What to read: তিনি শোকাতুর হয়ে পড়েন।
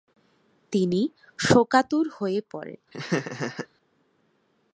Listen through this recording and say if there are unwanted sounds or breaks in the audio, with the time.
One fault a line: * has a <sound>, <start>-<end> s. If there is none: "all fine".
* has a laugh, 2.9-3.7 s